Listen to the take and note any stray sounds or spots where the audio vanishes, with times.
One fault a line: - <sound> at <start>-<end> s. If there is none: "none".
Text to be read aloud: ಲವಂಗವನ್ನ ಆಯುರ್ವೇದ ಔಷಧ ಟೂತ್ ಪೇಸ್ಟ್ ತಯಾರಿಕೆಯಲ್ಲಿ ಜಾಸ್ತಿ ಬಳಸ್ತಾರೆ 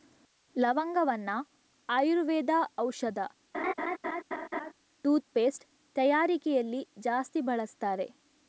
- laugh at 3.5-4.7 s